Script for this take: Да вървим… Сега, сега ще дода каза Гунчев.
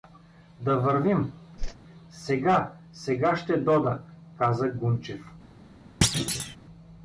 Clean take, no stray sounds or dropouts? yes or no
no